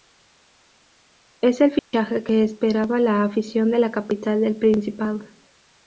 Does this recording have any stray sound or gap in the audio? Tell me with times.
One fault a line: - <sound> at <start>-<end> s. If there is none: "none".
- dropout at 1.8-1.9 s